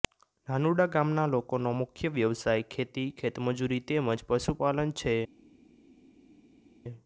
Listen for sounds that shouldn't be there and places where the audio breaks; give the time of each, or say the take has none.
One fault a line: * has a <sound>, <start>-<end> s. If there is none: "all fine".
all fine